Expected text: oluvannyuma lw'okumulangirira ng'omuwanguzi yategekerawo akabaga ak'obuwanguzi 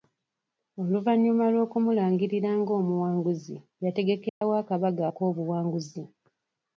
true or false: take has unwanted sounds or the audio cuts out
true